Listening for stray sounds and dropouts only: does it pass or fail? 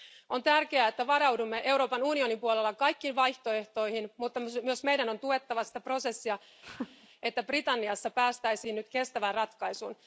fail